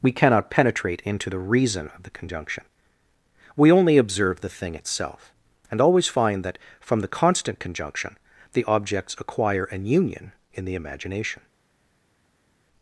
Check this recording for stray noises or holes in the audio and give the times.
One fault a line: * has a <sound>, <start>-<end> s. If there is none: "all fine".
all fine